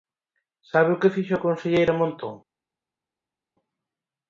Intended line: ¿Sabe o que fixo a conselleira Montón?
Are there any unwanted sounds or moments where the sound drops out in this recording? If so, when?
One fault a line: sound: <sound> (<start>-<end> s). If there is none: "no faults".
no faults